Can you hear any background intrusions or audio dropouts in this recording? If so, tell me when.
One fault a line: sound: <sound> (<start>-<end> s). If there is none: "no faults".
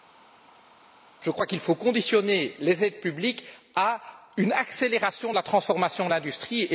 no faults